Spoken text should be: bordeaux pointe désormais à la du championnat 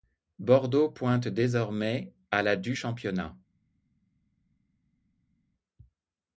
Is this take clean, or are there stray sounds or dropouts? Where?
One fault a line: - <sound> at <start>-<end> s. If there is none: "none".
none